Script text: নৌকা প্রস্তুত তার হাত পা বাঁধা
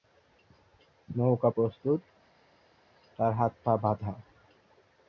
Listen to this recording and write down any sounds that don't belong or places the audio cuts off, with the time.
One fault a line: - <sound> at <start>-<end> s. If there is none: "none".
none